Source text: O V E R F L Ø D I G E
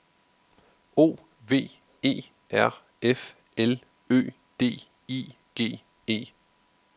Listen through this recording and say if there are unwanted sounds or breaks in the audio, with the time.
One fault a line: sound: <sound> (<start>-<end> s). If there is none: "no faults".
no faults